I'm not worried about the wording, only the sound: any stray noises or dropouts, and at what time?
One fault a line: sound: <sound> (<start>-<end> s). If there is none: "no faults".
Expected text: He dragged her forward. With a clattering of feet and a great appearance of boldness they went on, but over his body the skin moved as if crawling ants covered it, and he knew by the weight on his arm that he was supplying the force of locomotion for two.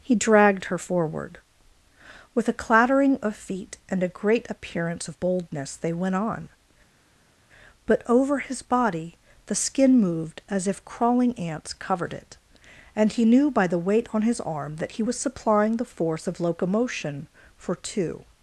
no faults